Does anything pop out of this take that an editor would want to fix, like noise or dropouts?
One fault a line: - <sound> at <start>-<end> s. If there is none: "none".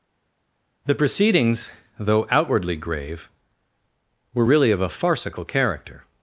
none